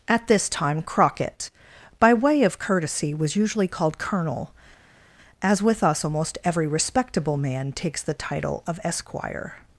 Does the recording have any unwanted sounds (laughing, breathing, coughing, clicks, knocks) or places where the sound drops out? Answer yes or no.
no